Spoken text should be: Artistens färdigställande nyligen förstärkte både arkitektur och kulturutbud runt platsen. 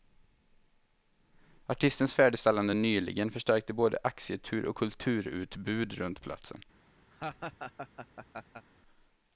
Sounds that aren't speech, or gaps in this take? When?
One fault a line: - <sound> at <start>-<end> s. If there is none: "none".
- laugh at 7.1-8.7 s